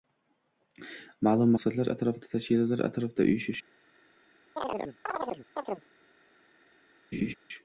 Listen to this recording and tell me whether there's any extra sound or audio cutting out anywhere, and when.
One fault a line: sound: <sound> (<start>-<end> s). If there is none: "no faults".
sound: chirp (4.6-5.9 s)
sound: laugh (7.1-7.3 s)